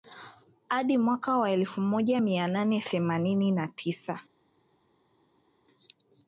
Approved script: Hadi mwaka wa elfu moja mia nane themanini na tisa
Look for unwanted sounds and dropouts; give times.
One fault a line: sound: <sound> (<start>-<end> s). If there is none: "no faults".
no faults